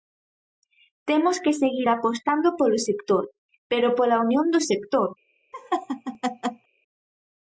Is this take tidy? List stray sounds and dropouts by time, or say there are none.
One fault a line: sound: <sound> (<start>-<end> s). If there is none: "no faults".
sound: laugh (5.5-6.7 s)